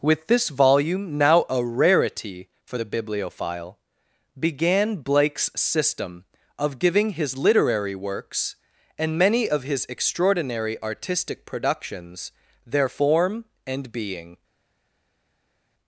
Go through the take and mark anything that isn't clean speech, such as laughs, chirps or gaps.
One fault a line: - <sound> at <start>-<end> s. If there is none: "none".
none